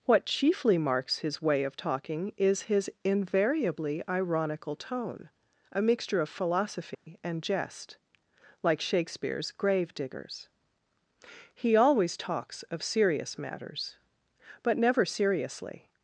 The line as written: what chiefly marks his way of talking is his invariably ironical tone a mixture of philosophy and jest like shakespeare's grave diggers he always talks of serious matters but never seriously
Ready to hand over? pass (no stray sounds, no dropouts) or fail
fail